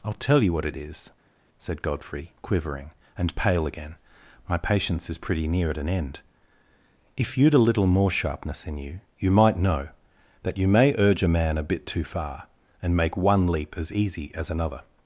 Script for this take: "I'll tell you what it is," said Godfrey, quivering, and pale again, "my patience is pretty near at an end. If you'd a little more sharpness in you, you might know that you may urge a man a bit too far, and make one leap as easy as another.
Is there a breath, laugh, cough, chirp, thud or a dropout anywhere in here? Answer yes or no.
no